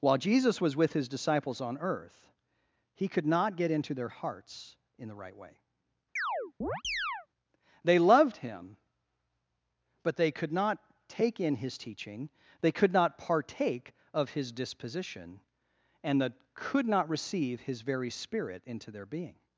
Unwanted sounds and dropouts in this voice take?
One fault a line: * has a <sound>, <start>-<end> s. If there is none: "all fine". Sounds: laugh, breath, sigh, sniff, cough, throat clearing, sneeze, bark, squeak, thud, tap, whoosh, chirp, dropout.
* has a chirp, 6.2-7.3 s